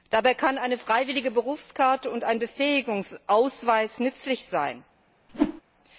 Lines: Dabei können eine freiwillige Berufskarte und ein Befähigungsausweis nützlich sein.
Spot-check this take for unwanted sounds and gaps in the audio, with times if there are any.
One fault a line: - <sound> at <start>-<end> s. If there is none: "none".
- whoosh at 5.3-5.6 s